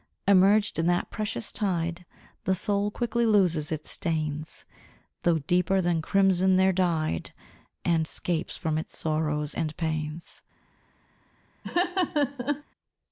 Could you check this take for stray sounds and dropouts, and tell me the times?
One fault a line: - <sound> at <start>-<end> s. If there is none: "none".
- laugh at 11.6-12.6 s